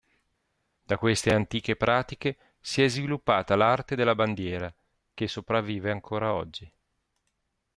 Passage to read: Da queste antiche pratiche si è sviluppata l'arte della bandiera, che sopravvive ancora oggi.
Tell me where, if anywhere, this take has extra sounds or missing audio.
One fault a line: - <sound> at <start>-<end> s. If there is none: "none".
none